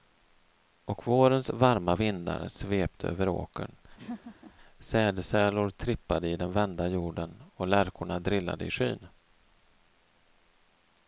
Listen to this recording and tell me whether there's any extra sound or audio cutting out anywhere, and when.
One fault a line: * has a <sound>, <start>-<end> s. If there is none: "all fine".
* has a laugh, 4.0-4.5 s